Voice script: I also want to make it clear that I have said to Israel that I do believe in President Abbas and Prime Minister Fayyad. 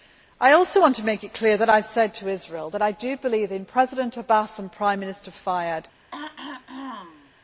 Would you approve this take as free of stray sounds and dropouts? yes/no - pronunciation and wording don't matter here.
no